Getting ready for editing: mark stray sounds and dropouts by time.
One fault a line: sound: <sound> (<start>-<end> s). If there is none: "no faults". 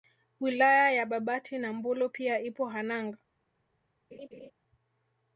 sound: laugh (4.1-4.5 s)